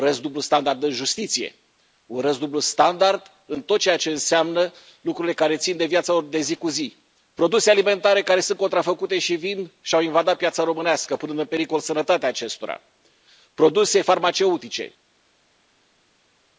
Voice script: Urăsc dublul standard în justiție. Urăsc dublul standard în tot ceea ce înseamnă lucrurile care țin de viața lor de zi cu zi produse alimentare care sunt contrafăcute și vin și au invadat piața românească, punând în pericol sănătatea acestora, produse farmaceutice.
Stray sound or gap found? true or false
false